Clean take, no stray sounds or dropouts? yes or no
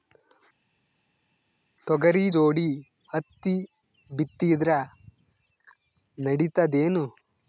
yes